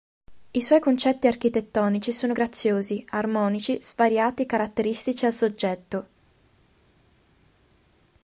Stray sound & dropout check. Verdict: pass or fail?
pass